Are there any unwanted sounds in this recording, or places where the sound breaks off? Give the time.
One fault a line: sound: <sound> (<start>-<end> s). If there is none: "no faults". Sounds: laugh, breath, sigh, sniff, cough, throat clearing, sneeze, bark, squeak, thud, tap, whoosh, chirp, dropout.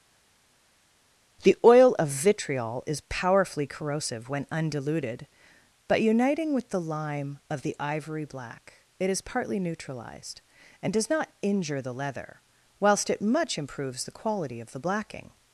no faults